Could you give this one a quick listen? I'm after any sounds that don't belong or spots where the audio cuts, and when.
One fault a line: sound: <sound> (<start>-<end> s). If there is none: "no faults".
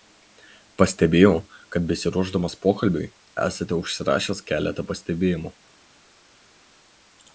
no faults